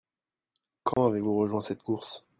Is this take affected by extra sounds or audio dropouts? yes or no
yes